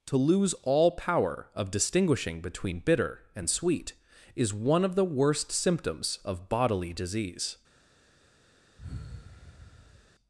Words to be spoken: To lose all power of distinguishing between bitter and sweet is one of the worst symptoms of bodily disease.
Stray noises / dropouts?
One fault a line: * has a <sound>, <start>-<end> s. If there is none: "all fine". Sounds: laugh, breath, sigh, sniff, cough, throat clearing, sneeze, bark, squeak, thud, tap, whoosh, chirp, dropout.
* has a sigh, 8.8-10.1 s